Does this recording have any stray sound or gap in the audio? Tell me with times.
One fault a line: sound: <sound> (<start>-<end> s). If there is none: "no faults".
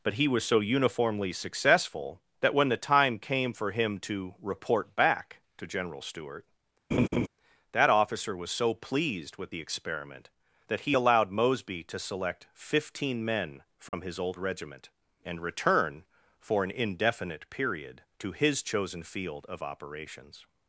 sound: laugh (6.9-7.3 s)
sound: dropout (13.9-13.9 s)